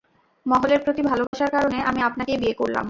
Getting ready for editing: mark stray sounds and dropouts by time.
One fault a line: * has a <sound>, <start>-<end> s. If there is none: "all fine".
* has a dropout, 1.3-1.3 s